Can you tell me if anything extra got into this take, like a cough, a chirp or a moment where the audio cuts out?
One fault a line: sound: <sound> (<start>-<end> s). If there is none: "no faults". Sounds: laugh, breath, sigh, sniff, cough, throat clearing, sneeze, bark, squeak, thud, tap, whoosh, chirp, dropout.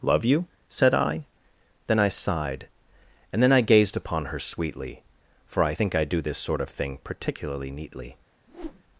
sound: whoosh (8.5-8.8 s)